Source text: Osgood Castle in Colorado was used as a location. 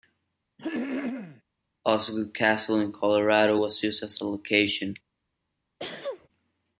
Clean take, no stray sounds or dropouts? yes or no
no